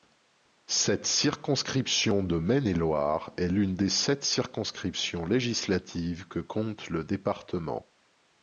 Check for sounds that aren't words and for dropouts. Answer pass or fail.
pass